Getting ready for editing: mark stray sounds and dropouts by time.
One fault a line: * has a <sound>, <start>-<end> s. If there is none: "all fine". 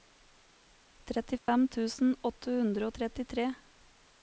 * has a dropout, 1.4-1.5 s